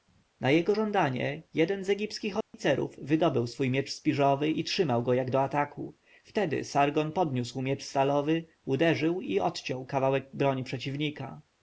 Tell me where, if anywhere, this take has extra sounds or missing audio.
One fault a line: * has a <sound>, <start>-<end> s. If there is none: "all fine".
* has a dropout, 2.4-2.5 s